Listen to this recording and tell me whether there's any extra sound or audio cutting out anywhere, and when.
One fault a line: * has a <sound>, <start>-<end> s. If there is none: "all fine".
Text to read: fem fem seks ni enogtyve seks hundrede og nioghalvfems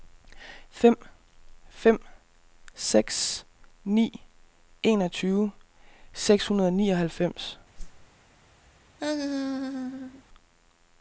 * has a whoosh, 7.7-8.1 s
* has a laugh, 9.0-10.2 s